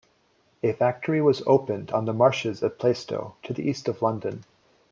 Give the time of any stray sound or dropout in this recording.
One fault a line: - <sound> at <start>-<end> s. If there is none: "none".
none